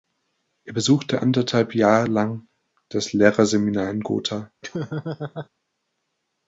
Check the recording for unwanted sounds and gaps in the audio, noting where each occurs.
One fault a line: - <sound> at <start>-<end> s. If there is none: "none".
- laugh at 4.6-5.5 s